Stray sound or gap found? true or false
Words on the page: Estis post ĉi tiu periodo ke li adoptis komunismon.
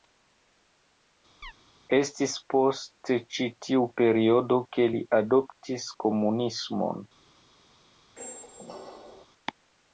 true